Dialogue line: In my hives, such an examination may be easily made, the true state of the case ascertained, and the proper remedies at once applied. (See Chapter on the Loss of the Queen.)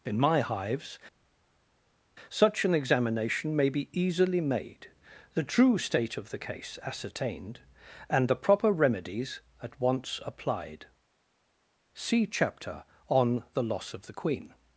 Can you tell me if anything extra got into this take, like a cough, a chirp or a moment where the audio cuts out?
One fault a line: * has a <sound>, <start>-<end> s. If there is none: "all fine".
all fine